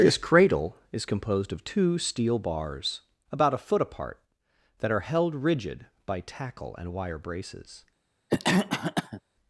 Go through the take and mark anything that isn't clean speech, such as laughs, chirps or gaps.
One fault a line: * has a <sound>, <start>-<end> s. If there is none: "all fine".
* has a cough, 8.3-9.2 s